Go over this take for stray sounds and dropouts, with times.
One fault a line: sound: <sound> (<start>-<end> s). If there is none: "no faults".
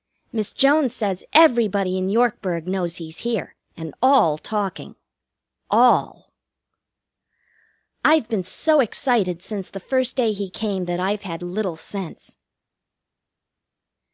no faults